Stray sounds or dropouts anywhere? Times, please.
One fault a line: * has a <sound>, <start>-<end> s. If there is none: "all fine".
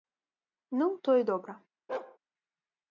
* has a bark, 1.9-2.2 s